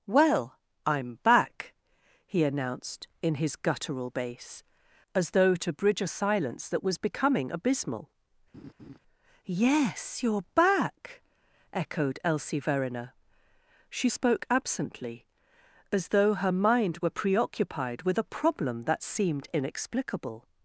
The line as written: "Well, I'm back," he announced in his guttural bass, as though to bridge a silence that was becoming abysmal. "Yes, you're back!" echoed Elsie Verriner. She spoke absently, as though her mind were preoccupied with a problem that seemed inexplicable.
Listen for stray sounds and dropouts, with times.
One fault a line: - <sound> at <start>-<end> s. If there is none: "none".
- laugh at 8.5-9.0 s